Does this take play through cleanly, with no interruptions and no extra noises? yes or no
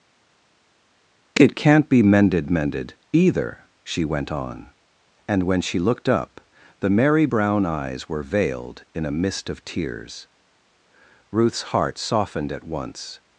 yes